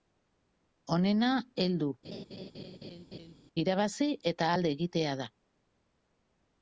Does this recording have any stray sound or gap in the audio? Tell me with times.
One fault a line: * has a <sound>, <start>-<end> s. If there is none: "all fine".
* has a laugh, 2.0-3.3 s